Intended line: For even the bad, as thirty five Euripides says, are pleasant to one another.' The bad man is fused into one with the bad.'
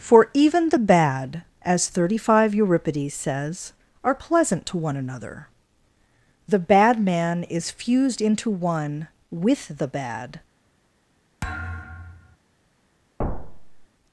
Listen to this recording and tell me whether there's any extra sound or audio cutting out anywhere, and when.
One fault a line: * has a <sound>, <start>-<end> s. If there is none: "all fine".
* has a thud, 11.4-12.4 s
* has a thud, 13.2-13.9 s